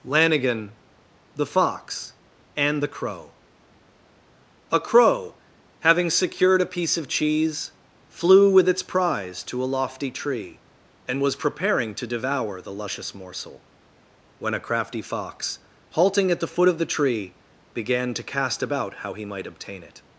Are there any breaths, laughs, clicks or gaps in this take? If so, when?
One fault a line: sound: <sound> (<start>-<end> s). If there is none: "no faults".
no faults